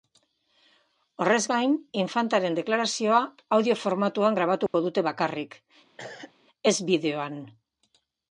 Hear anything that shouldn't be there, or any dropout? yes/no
yes